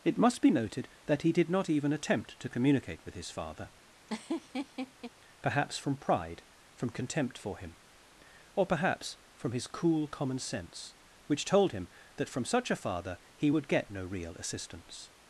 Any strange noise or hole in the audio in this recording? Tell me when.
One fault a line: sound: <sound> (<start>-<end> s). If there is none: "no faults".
sound: laugh (4.1-5.1 s)